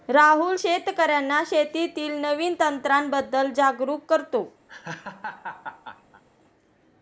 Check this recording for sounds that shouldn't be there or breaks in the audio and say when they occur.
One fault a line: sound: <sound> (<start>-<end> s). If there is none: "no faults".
sound: laugh (4.7-6.2 s)